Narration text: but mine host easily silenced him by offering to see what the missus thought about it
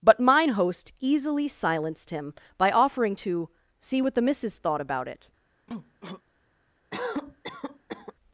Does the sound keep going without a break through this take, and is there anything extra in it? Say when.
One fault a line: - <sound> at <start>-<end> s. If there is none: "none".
- cough at 5.7-6.2 s
- cough at 6.9-8.1 s